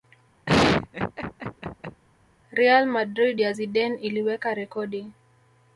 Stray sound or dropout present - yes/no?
yes